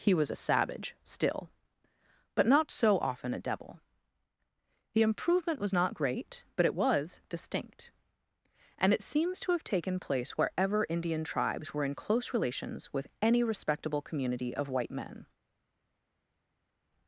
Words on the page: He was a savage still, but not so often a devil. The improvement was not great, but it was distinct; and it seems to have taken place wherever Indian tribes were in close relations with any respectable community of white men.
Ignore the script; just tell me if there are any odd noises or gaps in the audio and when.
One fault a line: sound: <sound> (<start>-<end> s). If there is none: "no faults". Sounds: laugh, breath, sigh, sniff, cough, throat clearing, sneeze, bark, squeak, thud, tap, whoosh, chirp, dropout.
no faults